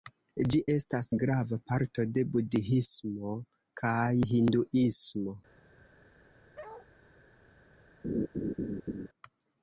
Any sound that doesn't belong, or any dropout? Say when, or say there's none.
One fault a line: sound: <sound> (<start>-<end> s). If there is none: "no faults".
sound: bark (6.6-6.9 s)
sound: laugh (8.0-9.1 s)